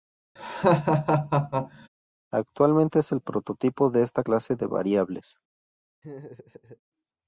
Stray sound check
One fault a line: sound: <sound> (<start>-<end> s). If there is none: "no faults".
sound: laugh (0.4-1.9 s)
sound: laugh (6.0-6.8 s)